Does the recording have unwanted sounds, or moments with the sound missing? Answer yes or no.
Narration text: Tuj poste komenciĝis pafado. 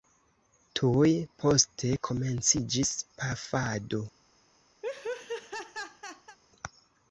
yes